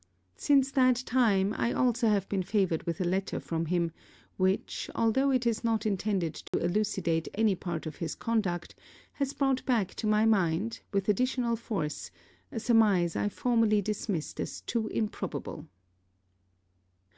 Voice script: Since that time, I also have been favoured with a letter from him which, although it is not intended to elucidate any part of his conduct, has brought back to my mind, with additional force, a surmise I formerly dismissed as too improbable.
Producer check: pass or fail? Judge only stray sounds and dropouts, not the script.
fail